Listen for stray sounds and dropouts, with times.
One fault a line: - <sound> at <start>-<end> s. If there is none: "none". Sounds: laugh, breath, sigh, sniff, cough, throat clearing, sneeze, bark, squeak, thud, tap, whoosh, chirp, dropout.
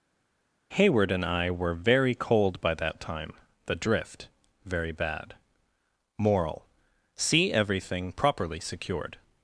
none